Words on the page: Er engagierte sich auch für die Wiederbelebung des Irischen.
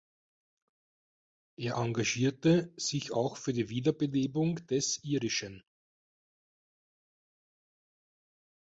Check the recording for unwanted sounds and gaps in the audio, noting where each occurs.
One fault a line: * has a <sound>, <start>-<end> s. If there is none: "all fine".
all fine